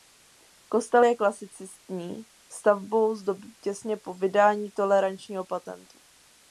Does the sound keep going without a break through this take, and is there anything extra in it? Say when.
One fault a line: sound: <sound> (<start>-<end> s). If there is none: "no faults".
no faults